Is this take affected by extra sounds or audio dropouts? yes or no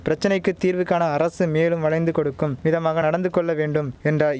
no